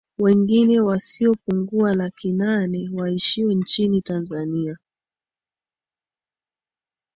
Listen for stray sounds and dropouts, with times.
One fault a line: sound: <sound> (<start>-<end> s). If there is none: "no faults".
no faults